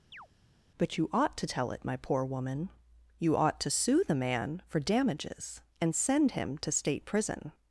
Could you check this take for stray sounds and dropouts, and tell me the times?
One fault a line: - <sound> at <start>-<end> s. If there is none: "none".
- chirp at 0.1-0.3 s